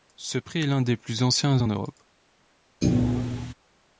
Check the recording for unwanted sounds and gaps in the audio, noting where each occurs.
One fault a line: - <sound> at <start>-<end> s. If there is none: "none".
- thud at 2.8-3.5 s